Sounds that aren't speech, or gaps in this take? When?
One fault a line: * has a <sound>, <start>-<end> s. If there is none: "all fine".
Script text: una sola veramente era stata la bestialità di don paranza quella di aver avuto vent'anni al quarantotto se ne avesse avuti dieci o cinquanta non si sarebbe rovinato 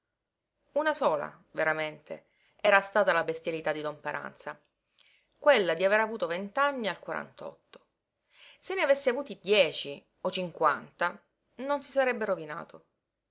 all fine